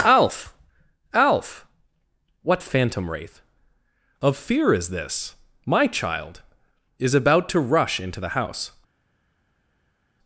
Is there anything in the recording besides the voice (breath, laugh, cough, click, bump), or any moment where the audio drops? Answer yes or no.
no